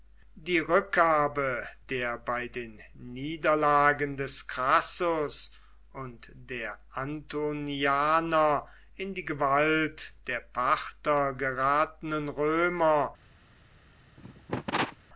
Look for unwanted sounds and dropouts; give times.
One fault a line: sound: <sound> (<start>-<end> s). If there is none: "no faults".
sound: cough (14.2-15.0 s)